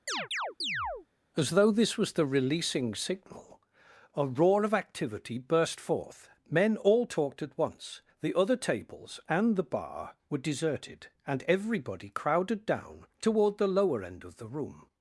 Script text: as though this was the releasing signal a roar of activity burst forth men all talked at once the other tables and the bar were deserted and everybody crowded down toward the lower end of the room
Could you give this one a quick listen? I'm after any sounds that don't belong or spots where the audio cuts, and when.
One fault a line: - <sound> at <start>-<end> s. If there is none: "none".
- chirp at 0.1-1.1 s